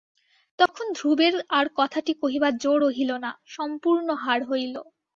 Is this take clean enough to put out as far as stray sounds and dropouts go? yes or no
no